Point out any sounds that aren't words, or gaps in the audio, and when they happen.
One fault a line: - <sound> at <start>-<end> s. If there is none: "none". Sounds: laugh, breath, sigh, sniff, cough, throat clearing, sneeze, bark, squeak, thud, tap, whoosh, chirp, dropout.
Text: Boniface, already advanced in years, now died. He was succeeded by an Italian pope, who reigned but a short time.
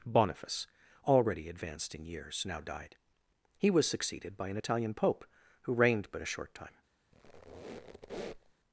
- squeak at 7.1-8.5 s